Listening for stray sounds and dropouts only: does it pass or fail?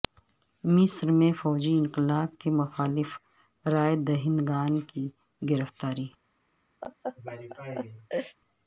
fail